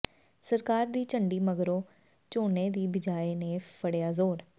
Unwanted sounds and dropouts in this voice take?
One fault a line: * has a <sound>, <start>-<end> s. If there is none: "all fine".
all fine